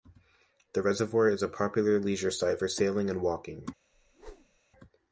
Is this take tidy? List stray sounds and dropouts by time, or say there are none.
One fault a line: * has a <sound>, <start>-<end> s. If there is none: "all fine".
* has a whoosh, 3.9-4.6 s